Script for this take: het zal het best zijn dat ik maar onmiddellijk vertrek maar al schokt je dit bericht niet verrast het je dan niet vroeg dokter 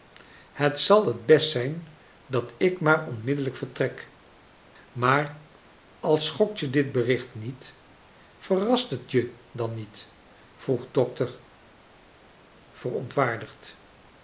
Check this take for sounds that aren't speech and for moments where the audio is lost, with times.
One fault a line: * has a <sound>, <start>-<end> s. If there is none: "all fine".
all fine